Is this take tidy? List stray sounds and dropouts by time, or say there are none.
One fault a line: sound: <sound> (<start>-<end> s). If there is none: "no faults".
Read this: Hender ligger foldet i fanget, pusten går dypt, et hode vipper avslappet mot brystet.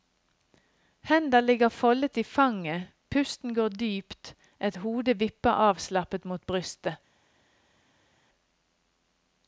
no faults